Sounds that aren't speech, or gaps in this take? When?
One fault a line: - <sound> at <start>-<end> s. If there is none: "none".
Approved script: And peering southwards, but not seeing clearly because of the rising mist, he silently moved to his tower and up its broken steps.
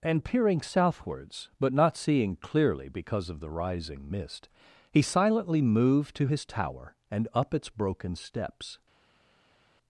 none